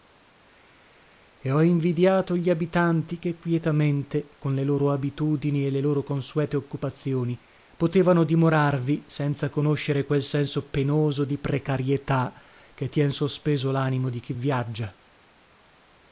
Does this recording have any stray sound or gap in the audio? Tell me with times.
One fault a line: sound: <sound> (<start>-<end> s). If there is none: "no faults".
no faults